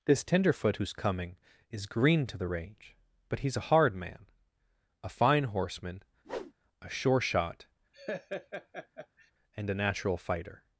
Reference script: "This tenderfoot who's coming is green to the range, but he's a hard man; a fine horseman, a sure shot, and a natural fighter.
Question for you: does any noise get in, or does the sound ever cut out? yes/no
yes